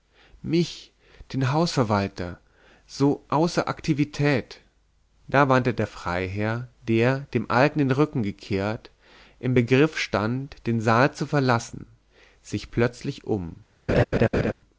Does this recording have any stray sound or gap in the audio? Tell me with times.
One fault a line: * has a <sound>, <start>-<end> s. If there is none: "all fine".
* has a laugh, 13.9-14.5 s